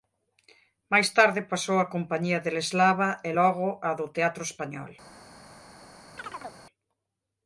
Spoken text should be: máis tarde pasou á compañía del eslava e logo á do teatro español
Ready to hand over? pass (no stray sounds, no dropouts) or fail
fail